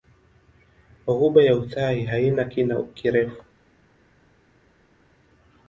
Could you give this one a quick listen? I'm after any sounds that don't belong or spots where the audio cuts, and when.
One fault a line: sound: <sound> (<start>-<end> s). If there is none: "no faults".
no faults